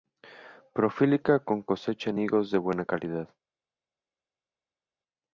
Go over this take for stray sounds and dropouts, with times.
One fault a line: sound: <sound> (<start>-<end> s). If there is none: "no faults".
no faults